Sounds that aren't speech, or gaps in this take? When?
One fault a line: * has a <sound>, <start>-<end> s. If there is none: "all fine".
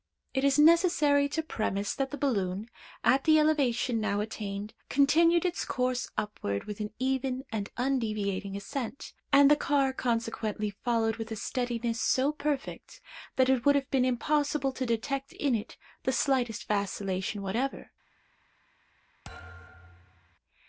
* has a thud, 19.2-20.4 s